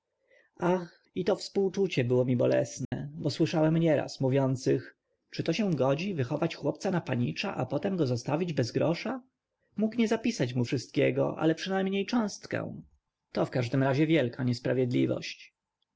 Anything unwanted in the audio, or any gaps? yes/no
yes